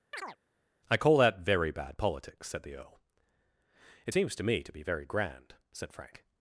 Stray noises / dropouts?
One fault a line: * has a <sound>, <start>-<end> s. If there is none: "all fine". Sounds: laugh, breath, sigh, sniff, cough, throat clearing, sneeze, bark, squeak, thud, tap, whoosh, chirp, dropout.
* has a chirp, 0.1-0.4 s